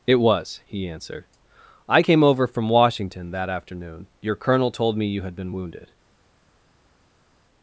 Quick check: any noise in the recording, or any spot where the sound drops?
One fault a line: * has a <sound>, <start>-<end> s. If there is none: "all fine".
all fine